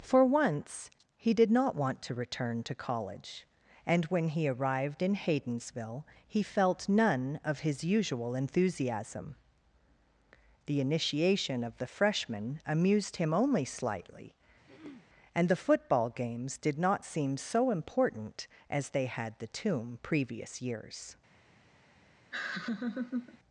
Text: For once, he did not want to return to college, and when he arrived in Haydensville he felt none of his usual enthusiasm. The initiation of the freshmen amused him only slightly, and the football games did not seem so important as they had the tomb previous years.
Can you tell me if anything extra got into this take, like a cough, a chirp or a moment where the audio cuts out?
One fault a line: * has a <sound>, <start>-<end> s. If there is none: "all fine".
* has a throat clearing, 14.7-15.1 s
* has a laugh, 22.3-23.4 s